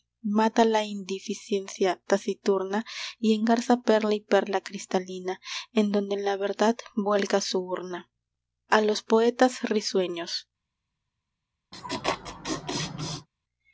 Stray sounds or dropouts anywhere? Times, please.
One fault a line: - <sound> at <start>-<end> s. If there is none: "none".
- laugh at 11.7-13.3 s